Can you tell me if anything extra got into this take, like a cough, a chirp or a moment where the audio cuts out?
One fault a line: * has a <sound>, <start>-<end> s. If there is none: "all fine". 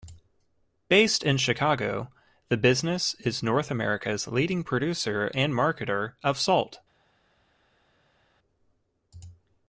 all fine